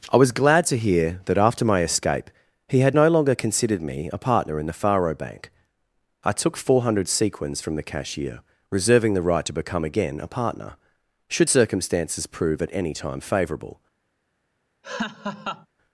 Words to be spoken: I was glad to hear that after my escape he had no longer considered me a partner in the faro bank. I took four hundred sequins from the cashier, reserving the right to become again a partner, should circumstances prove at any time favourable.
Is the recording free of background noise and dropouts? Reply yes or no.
no